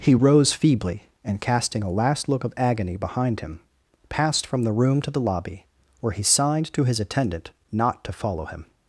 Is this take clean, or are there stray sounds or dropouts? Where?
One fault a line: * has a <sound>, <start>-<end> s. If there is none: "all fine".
all fine